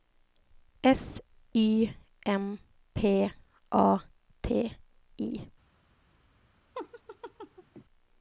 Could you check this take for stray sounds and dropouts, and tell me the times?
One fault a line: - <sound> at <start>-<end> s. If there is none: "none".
- laugh at 6.7-7.8 s